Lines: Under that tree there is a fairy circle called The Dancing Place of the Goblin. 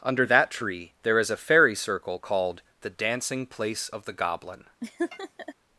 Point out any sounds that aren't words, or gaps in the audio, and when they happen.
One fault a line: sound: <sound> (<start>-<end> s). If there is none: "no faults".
sound: laugh (4.8-5.5 s)